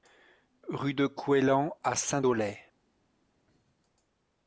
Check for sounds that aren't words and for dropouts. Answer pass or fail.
pass